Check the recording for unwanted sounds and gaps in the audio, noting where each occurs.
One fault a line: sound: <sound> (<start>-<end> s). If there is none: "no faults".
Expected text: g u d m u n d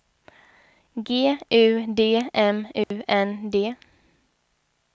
sound: dropout (2.8-2.9 s)